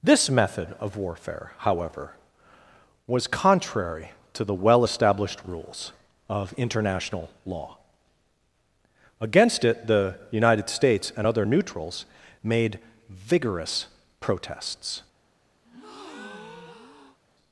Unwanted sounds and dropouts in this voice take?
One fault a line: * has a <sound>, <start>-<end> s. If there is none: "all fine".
* has a breath, 15.6-17.2 s